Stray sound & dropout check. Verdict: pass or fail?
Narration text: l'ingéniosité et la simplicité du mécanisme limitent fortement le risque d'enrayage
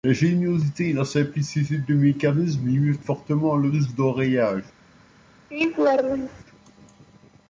fail